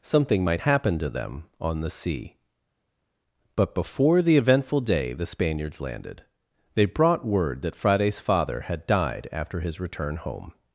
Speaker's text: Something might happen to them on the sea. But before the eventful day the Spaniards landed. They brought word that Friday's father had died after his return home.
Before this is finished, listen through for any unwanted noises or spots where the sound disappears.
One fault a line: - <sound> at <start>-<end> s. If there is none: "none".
none